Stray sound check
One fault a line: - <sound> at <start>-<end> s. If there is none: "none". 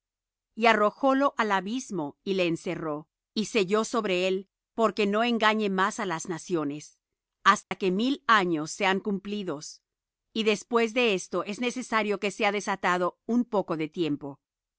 - dropout at 7.6-7.7 s